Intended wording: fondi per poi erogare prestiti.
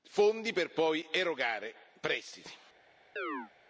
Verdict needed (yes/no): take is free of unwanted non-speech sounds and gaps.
no